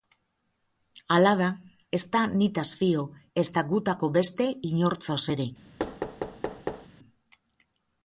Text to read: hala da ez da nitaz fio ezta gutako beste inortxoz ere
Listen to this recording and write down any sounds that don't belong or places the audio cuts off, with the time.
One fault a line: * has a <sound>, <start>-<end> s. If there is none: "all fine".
* has a thud, 5.8-6.9 s